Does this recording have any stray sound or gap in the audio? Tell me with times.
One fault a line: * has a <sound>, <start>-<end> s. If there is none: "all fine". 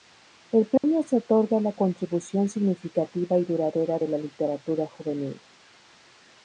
* has a dropout, 0.8-0.8 s